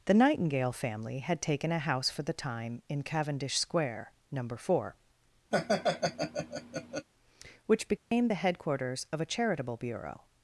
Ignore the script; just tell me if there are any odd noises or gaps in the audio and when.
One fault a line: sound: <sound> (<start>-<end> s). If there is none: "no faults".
sound: laugh (5.5-7.1 s)
sound: dropout (8.0-8.1 s)